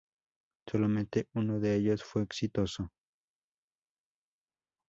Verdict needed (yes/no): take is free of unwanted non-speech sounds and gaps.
yes